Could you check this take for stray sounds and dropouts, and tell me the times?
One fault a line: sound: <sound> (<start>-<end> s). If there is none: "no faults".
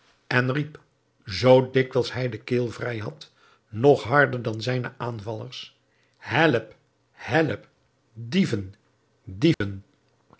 sound: dropout (9.5-9.6 s)